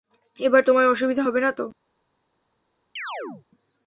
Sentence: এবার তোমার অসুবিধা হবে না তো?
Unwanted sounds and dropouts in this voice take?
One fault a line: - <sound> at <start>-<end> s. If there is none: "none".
- chirp at 3.0-3.5 s